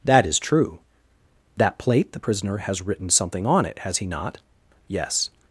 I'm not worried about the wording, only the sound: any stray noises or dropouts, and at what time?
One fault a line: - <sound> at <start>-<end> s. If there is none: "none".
none